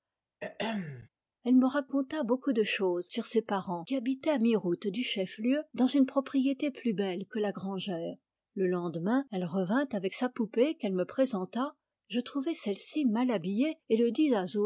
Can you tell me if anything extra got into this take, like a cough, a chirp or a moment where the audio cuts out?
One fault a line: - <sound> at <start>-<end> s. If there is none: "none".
- throat clearing at 0.4-1.1 s